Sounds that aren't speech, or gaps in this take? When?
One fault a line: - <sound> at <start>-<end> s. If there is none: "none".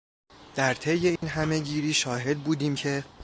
- dropout at 1.2-1.2 s